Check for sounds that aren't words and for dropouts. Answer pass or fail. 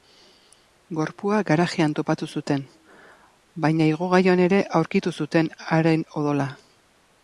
pass